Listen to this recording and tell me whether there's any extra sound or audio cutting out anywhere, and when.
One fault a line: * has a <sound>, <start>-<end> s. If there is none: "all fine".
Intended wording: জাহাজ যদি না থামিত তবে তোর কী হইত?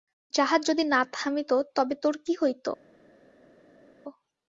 all fine